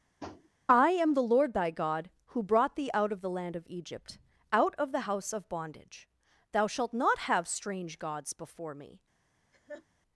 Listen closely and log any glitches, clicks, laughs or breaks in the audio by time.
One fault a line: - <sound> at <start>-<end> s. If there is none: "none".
- tap at 0.2-0.5 s
- laugh at 9.5-9.9 s